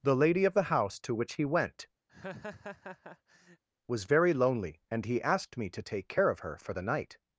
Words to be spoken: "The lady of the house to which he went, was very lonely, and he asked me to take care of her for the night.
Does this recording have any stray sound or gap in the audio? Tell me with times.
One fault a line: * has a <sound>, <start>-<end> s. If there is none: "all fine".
* has a laugh, 2.1-3.6 s